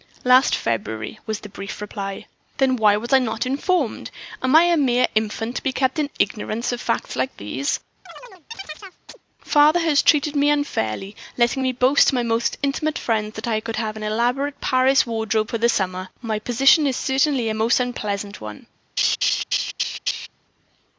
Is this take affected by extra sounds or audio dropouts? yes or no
yes